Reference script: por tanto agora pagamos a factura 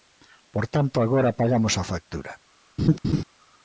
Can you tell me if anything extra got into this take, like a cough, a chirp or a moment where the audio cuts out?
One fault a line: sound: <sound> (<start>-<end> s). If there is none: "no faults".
sound: laugh (2.8-3.2 s)